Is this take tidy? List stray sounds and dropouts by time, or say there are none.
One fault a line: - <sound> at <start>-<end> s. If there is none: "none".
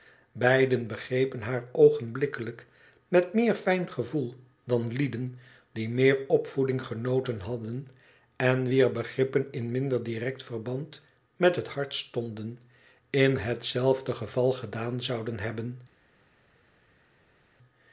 none